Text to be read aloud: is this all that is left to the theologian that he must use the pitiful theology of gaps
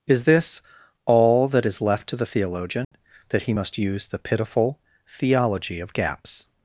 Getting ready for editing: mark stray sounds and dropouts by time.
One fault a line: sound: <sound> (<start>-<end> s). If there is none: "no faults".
sound: dropout (2.8-2.9 s)